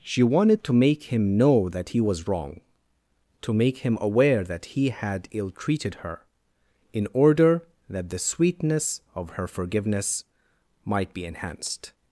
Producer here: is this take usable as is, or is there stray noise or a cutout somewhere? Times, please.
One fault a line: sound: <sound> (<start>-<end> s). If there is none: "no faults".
no faults